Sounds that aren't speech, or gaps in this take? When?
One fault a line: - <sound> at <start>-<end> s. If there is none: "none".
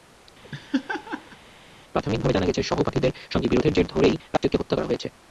- laugh at 0.4-1.4 s
- dropout at 4.4-4.4 s